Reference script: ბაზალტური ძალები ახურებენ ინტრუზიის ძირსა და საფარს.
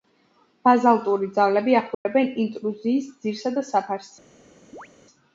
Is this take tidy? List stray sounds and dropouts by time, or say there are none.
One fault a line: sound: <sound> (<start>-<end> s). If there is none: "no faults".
sound: dropout (1.9-2.1 s)
sound: chirp (4.7-4.9 s)